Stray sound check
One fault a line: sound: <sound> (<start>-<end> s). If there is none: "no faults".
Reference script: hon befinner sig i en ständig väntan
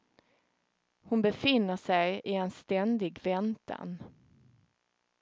no faults